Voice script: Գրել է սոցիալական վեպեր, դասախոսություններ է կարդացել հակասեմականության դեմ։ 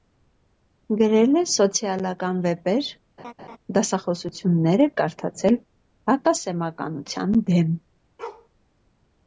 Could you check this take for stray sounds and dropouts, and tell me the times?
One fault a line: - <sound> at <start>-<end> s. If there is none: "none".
- laugh at 3.2-3.6 s
- bark at 8.2-8.5 s